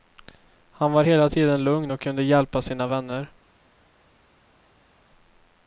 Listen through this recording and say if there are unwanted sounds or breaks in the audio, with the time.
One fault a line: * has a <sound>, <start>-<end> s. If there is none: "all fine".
all fine